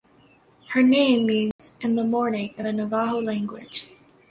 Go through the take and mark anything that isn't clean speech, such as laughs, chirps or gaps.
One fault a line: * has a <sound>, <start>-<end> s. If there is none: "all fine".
* has a dropout, 1.5-1.6 s